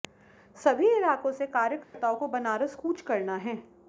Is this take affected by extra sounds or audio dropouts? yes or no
yes